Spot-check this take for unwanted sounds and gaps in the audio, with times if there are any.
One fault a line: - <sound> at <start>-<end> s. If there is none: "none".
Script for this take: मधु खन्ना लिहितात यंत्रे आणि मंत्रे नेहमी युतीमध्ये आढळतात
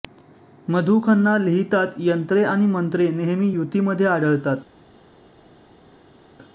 none